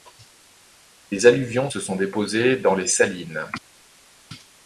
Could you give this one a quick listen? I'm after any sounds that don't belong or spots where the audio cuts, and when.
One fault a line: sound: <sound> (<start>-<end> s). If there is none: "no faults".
no faults